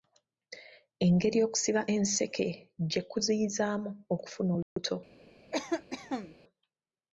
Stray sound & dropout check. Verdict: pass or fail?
fail